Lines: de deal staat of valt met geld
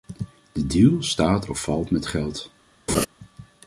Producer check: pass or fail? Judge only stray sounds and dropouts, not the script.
fail